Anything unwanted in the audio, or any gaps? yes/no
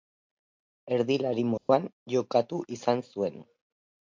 yes